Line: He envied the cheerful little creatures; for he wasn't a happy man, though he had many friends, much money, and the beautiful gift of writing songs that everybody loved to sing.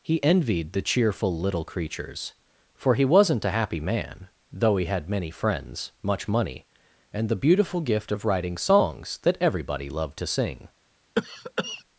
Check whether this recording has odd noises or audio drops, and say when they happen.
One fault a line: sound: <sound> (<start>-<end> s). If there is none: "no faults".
sound: cough (11.2-11.8 s)